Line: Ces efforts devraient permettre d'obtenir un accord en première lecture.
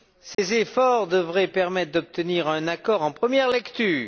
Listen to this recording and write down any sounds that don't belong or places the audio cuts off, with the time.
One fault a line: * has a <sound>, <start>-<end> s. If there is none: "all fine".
* has a dropout, 0.3-0.4 s